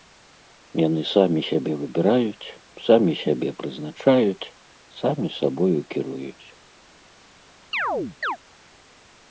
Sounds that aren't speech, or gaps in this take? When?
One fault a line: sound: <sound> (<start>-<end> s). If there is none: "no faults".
sound: chirp (7.7-8.4 s)